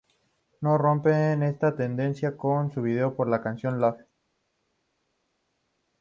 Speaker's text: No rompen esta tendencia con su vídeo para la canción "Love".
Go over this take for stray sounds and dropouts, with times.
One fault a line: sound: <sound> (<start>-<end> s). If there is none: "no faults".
no faults